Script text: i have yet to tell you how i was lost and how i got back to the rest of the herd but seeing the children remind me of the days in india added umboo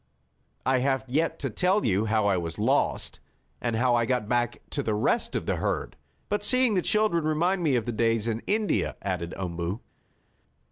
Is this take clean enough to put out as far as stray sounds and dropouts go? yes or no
yes